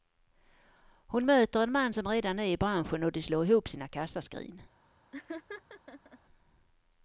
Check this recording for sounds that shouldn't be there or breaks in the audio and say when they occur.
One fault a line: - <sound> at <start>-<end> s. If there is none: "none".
- laugh at 5.1-6.2 s